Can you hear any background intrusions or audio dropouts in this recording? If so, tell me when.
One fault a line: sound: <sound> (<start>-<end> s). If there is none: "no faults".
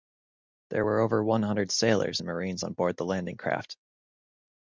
no faults